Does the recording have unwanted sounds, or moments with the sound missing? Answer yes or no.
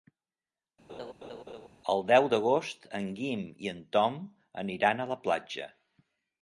yes